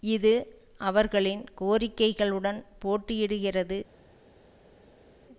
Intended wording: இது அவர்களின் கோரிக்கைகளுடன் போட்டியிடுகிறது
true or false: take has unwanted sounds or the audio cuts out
false